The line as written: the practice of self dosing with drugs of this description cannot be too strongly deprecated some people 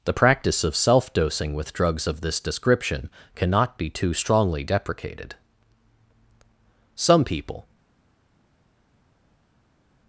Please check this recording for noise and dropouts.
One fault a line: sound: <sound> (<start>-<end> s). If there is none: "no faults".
no faults